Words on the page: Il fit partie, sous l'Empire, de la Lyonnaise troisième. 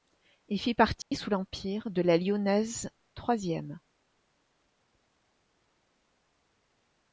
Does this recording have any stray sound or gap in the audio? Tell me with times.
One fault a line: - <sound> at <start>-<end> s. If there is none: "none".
- dropout at 1.0-1.1 s